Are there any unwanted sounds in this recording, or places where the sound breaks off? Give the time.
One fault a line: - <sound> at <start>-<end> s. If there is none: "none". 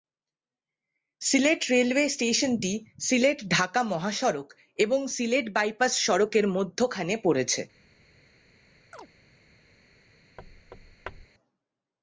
- chirp at 8.9-9.1 s
- thud at 10.4-11.3 s